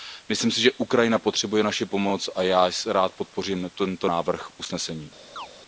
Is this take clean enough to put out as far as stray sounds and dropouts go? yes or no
no